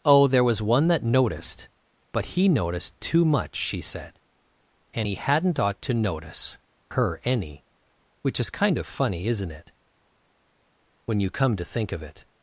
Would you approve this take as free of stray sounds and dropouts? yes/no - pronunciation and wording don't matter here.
yes